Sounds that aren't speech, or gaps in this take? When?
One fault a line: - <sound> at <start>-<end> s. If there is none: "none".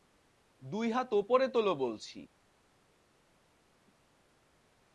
none